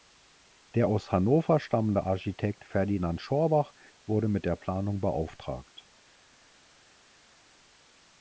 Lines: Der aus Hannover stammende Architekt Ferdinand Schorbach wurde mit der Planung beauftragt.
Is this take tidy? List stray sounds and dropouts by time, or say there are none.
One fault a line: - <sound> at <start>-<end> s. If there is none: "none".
none